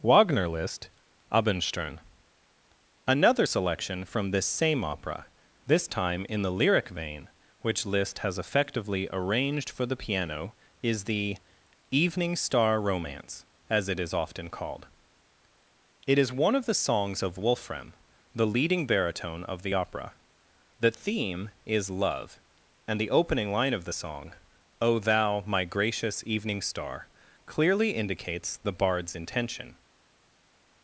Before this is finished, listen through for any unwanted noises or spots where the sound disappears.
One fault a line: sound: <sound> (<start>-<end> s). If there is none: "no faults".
no faults